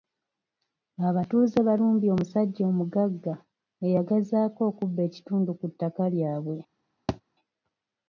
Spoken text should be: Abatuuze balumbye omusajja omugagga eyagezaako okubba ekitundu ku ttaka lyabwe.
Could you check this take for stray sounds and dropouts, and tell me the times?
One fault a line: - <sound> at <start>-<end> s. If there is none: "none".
- thud at 7.1-7.2 s